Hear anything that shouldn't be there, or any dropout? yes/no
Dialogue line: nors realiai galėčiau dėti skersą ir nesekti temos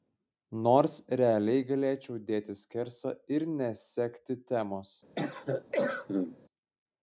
yes